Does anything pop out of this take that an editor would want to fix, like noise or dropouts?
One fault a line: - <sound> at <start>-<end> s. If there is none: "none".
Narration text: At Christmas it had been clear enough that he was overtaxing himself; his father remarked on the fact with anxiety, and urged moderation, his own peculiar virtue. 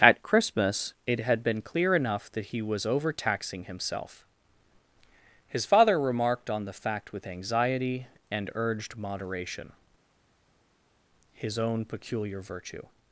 none